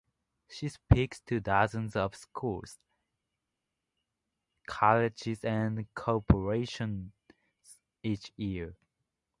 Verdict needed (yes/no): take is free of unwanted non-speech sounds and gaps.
yes